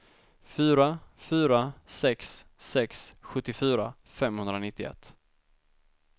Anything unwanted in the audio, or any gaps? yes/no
no